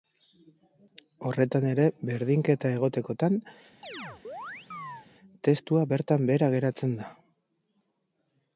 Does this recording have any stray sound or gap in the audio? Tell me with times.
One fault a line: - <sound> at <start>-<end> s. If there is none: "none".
- chirp at 3.8-5.1 s